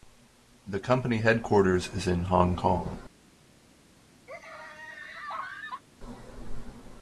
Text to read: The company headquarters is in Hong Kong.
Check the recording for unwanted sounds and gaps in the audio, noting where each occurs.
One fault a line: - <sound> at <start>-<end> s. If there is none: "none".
- laugh at 4.3-5.8 s